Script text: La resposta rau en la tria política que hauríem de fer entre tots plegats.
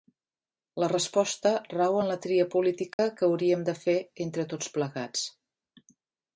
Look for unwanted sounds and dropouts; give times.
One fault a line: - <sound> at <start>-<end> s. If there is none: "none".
- dropout at 2.9-3.0 s